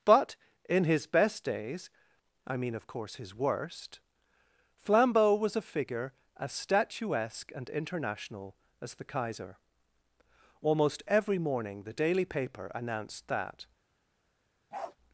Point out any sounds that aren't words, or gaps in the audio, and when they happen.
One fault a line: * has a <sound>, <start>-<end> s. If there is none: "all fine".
* has a bark, 14.7-15.0 s